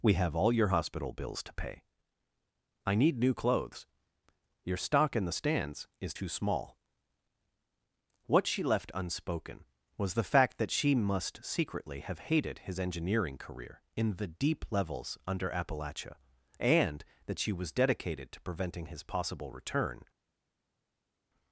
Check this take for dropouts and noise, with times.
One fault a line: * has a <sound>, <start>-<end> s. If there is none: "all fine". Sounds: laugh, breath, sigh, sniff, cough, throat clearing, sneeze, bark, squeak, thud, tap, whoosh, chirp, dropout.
all fine